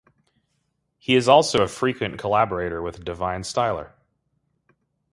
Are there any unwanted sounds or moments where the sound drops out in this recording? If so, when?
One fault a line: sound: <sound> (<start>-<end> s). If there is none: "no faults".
no faults